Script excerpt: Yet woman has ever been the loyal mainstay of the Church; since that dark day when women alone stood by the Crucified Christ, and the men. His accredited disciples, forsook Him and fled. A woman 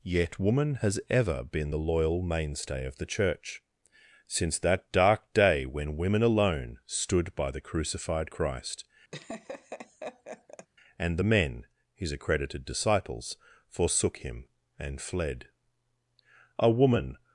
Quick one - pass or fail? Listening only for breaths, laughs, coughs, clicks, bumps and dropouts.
fail